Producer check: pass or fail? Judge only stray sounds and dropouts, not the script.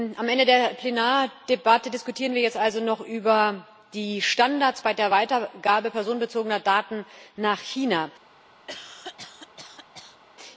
fail